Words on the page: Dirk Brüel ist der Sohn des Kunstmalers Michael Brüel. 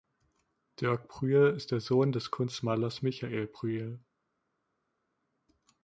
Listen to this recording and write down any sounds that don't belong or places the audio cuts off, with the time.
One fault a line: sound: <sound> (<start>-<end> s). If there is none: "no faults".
no faults